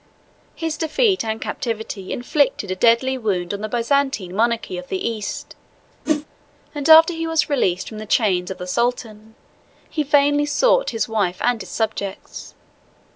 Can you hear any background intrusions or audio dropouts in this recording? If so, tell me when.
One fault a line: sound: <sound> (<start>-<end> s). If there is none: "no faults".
sound: whoosh (6.1-6.3 s)